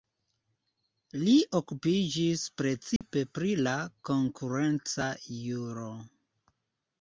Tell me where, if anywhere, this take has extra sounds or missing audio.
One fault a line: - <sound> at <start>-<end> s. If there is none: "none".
- dropout at 3.0-3.0 s